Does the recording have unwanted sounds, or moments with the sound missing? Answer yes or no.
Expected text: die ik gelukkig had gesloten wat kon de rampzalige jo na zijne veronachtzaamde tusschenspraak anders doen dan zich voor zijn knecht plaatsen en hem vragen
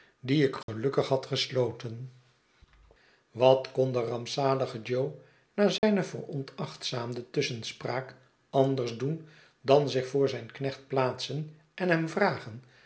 yes